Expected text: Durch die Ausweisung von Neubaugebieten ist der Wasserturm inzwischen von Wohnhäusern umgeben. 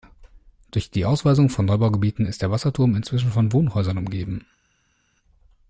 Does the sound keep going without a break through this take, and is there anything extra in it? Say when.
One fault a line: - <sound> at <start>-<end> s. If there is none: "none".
none